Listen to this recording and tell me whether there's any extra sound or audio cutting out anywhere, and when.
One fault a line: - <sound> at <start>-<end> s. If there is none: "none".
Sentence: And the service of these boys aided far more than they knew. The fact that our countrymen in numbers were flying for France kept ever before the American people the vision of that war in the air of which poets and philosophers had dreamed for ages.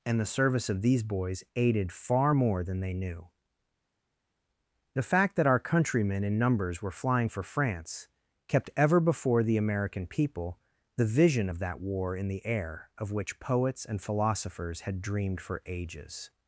none